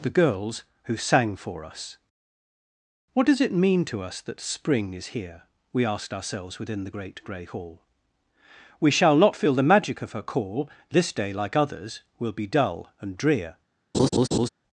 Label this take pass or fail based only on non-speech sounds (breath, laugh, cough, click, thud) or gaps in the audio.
fail